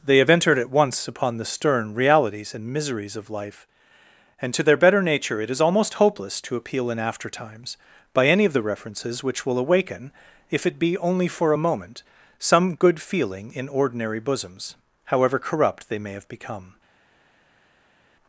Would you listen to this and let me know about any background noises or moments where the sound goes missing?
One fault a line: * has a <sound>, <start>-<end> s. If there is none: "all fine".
all fine